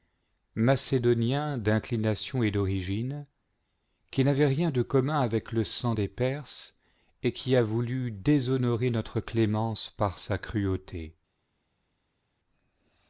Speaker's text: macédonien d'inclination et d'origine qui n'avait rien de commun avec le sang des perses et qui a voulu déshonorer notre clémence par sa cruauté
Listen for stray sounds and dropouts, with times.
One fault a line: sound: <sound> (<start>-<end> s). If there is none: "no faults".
no faults